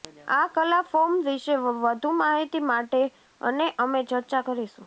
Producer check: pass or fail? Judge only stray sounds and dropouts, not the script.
pass